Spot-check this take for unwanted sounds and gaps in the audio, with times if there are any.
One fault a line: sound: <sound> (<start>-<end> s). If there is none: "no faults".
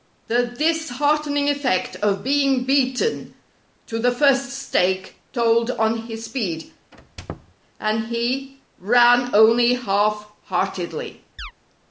sound: squeak (6.9-7.5 s)
sound: chirp (11.4-11.5 s)